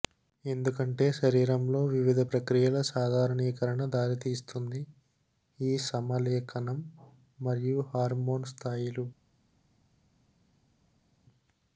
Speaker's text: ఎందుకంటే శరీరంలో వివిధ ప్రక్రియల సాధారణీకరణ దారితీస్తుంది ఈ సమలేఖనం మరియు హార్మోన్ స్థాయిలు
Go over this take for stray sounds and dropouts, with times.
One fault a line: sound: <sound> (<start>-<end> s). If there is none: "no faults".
no faults